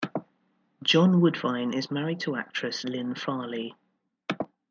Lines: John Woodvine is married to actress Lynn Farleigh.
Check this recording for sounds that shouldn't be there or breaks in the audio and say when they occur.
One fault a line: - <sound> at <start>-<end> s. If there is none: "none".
none